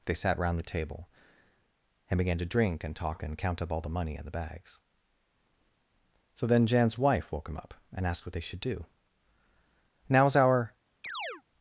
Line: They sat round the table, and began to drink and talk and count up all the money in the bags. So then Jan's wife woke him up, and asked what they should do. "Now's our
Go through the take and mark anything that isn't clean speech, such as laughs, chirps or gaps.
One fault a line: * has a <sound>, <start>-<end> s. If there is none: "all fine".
* has a chirp, 11.0-11.4 s